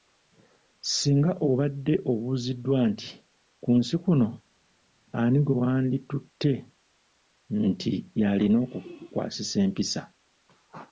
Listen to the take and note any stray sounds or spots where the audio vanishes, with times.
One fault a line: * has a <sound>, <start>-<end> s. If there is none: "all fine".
all fine